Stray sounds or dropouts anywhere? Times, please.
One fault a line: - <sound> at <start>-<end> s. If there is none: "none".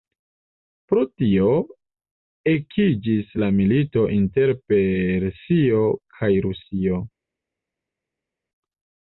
none